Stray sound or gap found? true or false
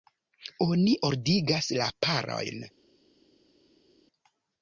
false